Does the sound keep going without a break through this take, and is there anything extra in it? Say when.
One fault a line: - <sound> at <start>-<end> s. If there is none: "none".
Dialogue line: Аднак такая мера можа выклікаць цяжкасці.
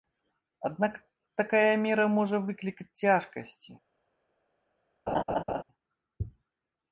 - laugh at 5.1-5.6 s